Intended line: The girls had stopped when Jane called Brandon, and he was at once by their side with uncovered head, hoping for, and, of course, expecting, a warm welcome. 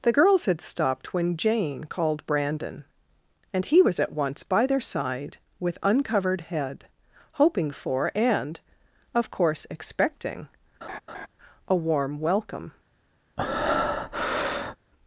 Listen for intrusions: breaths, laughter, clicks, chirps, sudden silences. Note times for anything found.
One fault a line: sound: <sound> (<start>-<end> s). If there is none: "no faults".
sound: laugh (10.8-11.3 s)
sound: breath (13.4-14.8 s)